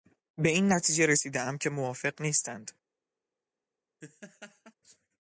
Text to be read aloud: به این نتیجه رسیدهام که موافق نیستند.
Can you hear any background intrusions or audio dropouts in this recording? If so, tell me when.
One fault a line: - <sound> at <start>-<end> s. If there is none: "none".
- laugh at 4.0-4.7 s